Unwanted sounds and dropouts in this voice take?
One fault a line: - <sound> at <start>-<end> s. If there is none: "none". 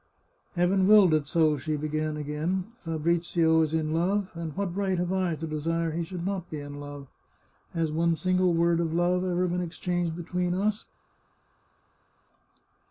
none